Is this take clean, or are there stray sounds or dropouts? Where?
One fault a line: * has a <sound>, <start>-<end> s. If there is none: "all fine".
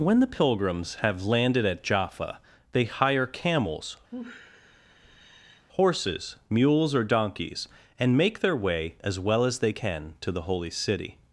* has a sigh, 4.1-5.7 s